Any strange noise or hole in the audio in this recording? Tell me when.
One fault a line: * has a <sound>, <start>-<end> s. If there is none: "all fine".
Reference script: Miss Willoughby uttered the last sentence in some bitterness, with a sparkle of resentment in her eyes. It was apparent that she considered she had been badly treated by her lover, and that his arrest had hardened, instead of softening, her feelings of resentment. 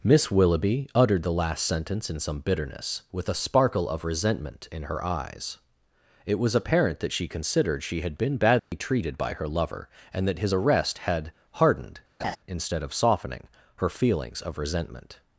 * has a dropout, 8.6-8.7 s
* has a laugh, 12.2-12.4 s